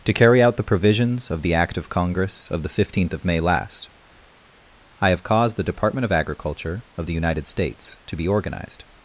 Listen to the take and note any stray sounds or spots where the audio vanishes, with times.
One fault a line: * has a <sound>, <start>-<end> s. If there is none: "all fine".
all fine